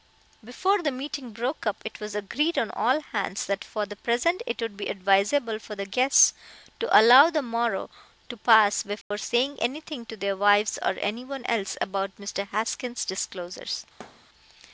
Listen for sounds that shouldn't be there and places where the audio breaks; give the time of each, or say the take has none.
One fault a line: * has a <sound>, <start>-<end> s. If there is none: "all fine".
* has a dropout, 9.0-9.1 s
* has a thud, 14.0-14.3 s